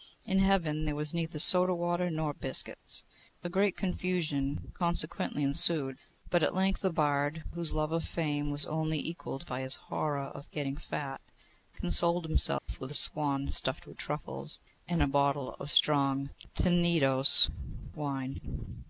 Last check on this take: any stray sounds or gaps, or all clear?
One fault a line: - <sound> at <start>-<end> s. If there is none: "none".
- dropout at 12.6-12.7 s